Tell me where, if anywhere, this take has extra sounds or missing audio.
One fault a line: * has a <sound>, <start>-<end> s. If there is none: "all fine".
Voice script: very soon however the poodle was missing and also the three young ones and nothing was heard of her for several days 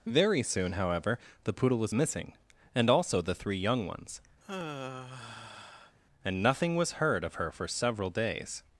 * has a sigh, 4.4-6.0 s